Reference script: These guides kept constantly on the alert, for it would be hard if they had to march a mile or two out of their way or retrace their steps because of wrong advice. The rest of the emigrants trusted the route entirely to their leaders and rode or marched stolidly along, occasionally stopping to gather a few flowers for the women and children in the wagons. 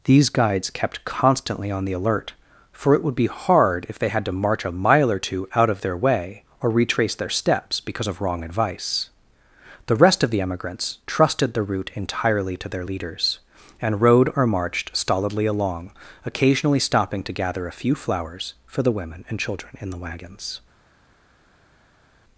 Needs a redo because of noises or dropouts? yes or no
no